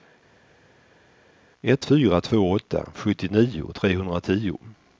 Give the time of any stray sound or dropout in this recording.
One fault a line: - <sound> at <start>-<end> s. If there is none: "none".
none